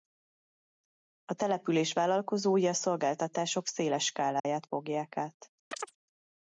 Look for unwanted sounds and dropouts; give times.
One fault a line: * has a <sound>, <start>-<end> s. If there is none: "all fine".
* has a dropout, 4.4-4.4 s
* has a chirp, 5.7-6.0 s